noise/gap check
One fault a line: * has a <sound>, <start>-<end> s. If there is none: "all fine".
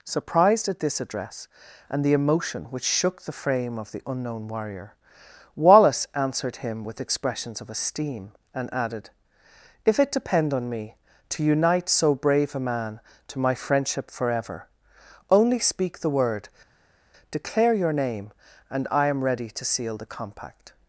all fine